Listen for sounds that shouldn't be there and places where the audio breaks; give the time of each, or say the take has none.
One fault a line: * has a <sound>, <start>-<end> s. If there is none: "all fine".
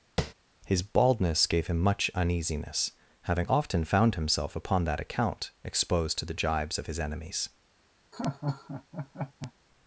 * has a tap, 0.2-0.3 s
* has a laugh, 8.1-9.5 s